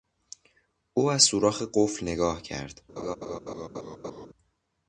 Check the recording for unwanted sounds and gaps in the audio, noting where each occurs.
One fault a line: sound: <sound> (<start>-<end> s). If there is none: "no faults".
sound: laugh (3.0-4.3 s)